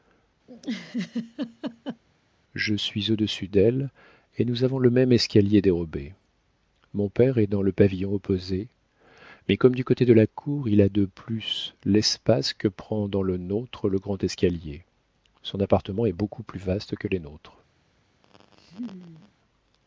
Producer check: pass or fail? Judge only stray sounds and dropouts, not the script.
fail